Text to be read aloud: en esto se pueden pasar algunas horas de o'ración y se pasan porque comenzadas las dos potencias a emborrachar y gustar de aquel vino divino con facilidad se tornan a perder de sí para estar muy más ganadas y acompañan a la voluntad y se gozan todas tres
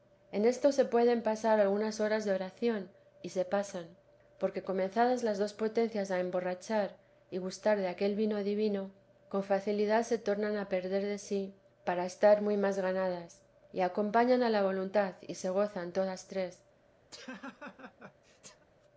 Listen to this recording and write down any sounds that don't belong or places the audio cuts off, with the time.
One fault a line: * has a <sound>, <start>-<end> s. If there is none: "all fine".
* has a laugh, 17.1-18.7 s